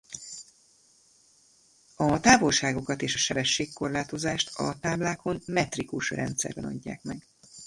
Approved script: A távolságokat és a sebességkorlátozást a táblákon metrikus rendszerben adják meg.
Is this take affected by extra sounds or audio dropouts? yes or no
no